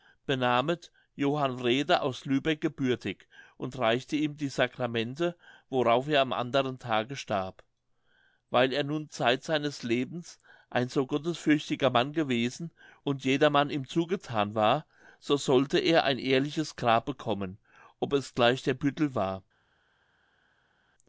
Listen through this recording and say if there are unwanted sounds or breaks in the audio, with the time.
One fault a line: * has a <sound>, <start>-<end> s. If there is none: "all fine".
all fine